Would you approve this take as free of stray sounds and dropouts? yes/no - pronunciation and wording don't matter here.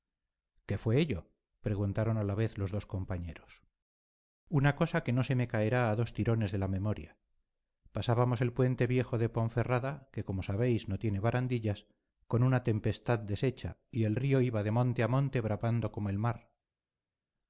yes